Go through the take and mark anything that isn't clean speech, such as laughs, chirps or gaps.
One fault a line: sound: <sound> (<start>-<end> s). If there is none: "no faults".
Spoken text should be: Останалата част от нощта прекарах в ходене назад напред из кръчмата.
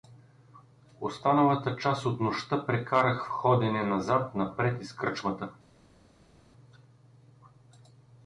no faults